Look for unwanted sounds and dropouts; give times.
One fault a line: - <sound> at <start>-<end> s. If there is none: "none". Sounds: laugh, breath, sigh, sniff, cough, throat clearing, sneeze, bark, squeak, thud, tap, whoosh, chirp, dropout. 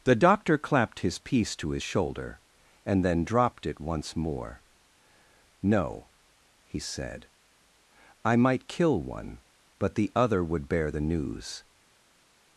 none